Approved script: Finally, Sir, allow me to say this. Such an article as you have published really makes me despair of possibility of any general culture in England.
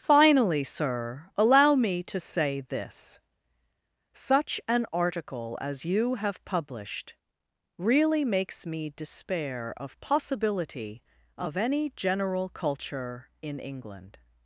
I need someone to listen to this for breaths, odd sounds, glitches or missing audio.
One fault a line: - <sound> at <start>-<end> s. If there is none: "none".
none